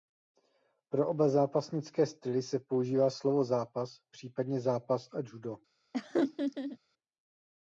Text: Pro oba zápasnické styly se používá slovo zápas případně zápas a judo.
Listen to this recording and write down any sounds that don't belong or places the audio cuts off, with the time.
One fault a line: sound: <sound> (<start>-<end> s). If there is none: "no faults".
sound: laugh (5.9-6.8 s)